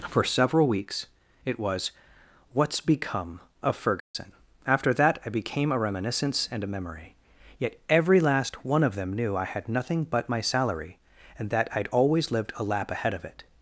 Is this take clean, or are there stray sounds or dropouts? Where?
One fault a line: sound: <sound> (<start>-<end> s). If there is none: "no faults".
sound: dropout (4.0-4.1 s)